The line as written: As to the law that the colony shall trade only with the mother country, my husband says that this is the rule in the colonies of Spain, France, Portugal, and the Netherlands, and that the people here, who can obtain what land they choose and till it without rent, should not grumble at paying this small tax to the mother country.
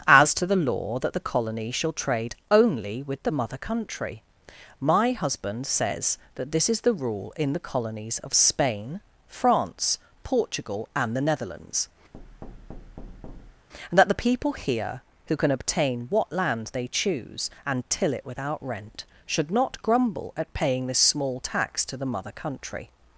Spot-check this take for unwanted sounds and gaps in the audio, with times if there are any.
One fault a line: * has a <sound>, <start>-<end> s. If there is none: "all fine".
* has a thud, 12.1-13.7 s